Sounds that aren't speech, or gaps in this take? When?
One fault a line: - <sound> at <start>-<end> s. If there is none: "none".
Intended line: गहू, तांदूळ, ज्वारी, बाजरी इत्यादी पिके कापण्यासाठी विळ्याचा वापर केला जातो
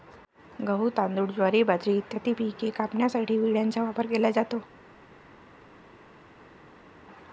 none